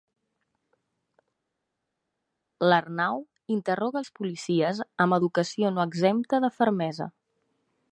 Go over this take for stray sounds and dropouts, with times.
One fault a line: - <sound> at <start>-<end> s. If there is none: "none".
none